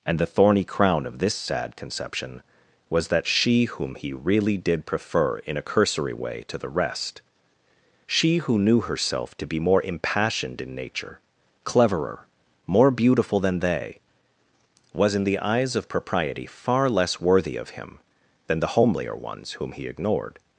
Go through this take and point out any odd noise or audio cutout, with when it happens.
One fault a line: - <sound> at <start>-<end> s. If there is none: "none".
none